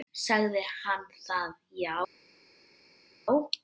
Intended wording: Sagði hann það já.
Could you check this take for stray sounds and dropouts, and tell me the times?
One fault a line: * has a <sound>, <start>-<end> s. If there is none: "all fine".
all fine